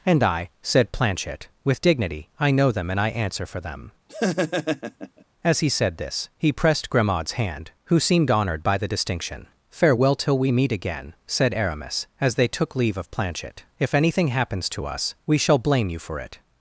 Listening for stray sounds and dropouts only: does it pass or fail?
fail